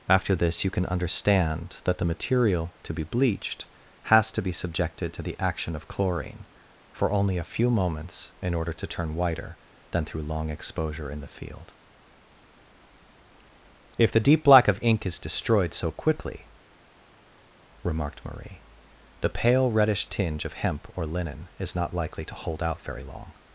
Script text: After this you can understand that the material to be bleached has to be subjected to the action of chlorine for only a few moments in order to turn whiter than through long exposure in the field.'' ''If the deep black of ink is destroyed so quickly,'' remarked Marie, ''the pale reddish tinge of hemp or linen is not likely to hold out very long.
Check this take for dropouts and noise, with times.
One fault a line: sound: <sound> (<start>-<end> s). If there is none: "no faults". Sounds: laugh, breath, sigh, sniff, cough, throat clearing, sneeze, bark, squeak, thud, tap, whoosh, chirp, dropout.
no faults